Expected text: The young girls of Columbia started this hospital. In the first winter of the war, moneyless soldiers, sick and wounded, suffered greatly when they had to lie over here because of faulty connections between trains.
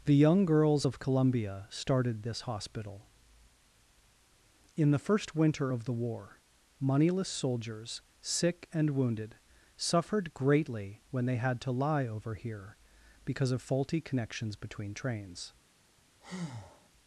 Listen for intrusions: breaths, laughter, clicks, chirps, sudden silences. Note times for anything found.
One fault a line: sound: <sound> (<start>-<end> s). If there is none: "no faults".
sound: breath (16.2-16.9 s)